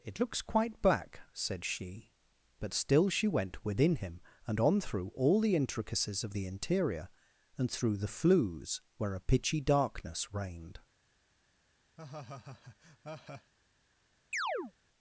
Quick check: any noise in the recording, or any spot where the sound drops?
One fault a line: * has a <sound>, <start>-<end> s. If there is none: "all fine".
* has a laugh, 12.0-13.5 s
* has a chirp, 14.3-14.7 s